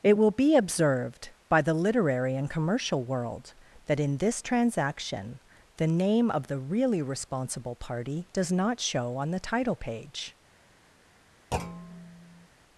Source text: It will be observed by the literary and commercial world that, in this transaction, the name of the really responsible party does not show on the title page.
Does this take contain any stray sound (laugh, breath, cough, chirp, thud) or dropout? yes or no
yes